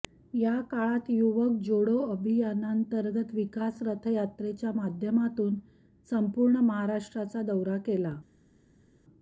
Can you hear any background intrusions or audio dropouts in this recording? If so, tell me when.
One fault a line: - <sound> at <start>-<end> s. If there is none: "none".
none